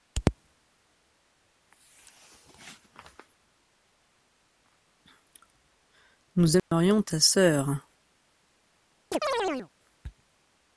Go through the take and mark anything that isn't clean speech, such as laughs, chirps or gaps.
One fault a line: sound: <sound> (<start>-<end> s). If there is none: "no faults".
sound: dropout (6.6-6.7 s)
sound: chirp (9.1-9.7 s)